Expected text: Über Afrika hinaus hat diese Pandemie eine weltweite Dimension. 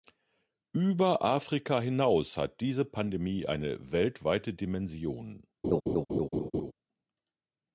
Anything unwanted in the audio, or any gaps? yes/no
yes